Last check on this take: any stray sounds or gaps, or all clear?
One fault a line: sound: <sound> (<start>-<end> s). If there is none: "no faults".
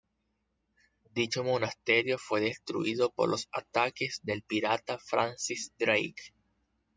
no faults